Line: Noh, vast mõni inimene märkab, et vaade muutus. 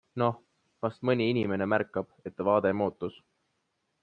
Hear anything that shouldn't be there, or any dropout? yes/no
no